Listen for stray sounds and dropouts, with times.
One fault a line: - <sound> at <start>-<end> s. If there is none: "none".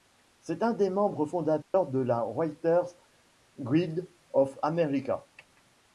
- dropout at 1.6-1.7 s